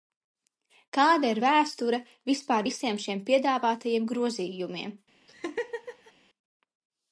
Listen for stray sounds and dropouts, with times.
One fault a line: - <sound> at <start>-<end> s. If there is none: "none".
- laugh at 5.3-6.1 s